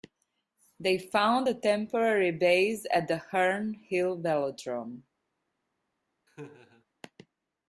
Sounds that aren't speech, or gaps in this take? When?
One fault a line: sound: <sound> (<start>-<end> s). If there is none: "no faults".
sound: laugh (6.3-6.8 s)